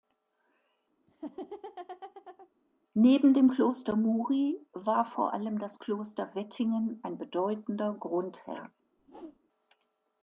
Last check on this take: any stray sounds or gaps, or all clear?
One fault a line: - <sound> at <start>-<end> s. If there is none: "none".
- laugh at 1.1-2.5 s
- whoosh at 9.0-9.4 s